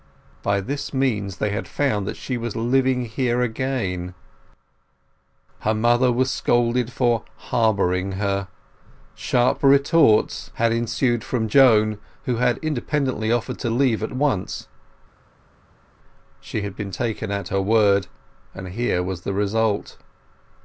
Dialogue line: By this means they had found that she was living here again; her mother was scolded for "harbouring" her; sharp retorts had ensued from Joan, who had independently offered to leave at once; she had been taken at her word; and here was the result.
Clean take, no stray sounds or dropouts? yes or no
yes